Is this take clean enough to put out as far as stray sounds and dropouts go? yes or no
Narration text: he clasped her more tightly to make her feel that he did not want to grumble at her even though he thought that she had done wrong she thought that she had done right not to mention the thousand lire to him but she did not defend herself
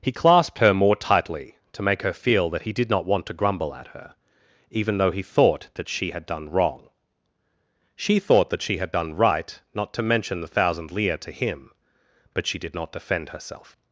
yes